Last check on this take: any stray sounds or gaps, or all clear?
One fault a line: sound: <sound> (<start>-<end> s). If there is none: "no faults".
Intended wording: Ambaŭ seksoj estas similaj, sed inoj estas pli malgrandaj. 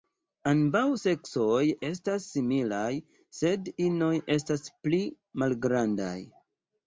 no faults